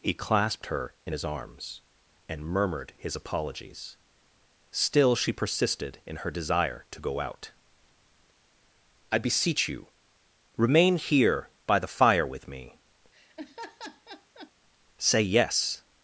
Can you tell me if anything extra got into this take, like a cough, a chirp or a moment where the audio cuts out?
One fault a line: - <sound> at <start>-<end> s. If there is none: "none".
- laugh at 13.1-14.5 s